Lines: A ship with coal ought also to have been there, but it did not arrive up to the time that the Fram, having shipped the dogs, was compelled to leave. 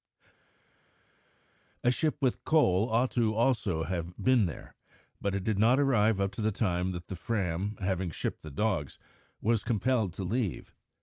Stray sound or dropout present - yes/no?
no